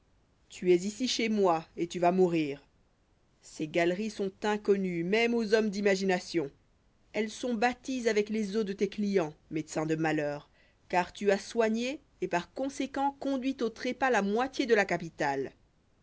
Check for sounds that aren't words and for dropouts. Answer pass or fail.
pass